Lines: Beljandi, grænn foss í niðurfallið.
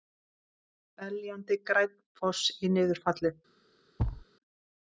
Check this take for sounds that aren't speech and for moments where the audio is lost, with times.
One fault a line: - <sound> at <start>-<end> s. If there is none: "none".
- thud at 4.0-4.3 s